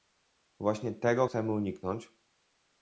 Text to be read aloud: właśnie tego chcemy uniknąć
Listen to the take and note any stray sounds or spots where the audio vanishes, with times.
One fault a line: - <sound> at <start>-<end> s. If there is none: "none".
none